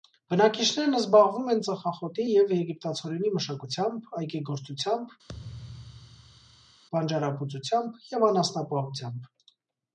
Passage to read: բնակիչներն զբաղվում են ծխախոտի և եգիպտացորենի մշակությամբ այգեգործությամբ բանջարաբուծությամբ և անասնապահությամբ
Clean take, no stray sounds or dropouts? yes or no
no